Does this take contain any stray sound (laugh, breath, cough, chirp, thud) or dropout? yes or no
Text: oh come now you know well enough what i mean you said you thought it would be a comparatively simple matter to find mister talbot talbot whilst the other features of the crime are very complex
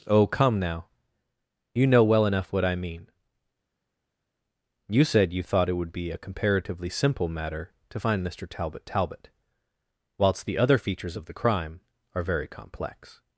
no